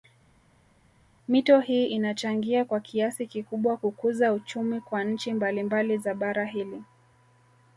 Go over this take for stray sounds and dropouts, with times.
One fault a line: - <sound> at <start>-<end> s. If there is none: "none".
none